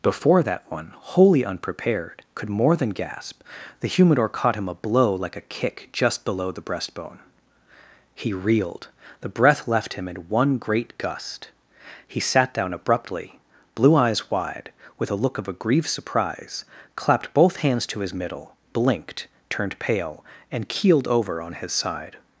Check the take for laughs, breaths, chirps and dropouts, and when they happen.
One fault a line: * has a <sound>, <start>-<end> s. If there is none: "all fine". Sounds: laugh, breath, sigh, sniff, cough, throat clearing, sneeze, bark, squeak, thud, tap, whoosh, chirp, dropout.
all fine